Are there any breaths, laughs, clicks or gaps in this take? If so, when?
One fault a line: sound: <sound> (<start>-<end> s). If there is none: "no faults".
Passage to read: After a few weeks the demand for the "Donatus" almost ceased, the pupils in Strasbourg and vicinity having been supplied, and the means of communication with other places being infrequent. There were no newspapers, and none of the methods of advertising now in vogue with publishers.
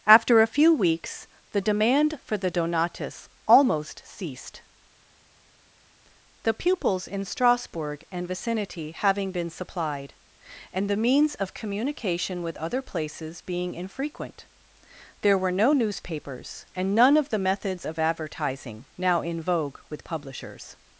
no faults